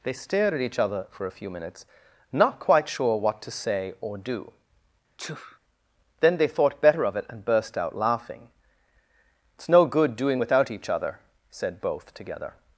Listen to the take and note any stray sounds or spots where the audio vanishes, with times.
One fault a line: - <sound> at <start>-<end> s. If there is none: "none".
- sneeze at 5.2-5.6 s